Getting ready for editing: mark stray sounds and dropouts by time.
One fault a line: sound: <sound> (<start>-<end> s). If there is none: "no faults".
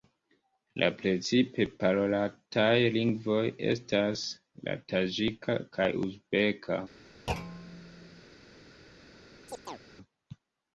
sound: thud (7.3-8.2 s)
sound: chirp (9.5-9.8 s)